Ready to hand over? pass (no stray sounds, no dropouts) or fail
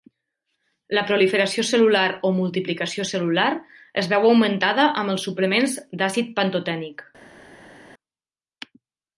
pass